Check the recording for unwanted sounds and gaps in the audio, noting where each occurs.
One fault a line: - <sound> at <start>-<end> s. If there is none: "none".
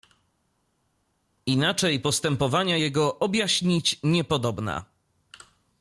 none